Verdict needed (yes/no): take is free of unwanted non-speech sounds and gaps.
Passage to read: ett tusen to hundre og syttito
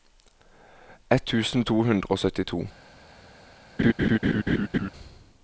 no